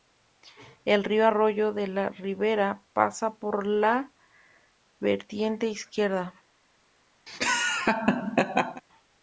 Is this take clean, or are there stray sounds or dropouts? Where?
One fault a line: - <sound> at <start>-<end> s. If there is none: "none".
- laugh at 7.3-8.8 s